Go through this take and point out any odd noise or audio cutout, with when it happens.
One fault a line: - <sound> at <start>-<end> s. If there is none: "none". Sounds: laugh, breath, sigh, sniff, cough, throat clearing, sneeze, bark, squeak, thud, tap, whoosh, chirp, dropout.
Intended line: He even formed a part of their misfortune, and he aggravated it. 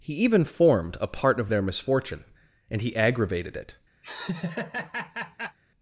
- laugh at 4.0-5.6 s